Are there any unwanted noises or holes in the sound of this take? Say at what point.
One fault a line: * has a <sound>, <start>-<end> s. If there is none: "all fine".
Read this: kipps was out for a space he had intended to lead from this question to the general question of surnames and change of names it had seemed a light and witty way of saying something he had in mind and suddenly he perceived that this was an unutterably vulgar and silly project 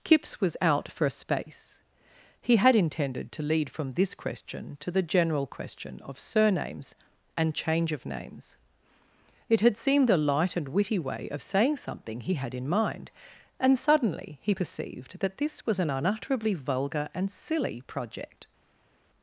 all fine